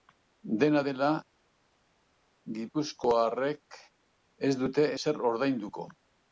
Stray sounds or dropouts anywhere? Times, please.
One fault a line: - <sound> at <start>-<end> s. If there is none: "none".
none